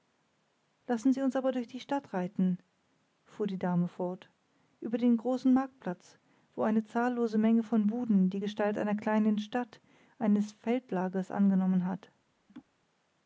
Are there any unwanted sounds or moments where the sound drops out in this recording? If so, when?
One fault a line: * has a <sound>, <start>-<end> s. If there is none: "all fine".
* has a laugh, 12.5-12.7 s